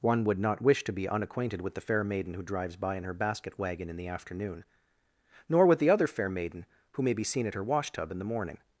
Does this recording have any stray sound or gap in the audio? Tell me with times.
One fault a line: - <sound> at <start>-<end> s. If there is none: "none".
none